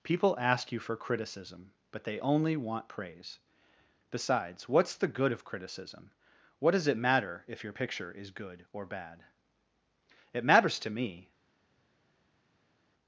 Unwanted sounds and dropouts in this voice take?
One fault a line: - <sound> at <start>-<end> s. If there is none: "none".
none